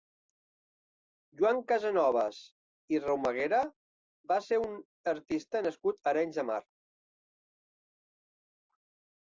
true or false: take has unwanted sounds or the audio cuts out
false